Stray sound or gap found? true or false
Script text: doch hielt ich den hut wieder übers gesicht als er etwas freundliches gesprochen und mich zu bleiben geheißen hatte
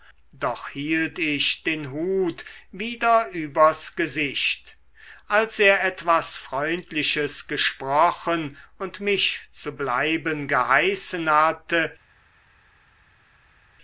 false